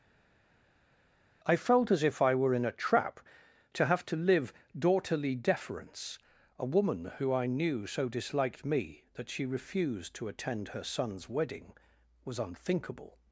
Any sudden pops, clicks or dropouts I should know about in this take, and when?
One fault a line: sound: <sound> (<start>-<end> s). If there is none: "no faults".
no faults